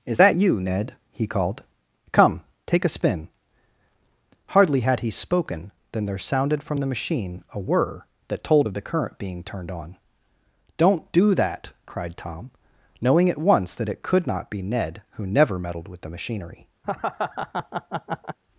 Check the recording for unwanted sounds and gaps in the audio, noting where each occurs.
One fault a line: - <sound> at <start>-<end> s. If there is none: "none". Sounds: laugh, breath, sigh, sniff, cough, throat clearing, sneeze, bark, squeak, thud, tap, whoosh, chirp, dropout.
- laugh at 16.8-18.4 s